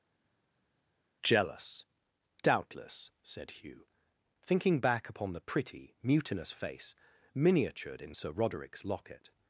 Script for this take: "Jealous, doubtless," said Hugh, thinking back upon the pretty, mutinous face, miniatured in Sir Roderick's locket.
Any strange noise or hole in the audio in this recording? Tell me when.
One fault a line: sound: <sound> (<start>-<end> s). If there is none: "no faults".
no faults